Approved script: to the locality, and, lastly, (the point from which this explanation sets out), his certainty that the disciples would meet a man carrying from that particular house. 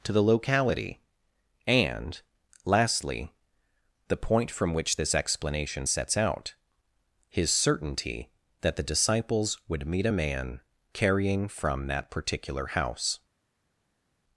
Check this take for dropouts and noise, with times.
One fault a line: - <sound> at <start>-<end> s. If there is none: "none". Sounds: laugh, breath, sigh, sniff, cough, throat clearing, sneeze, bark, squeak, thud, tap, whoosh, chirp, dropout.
none